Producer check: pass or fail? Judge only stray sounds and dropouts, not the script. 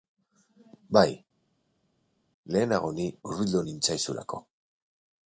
pass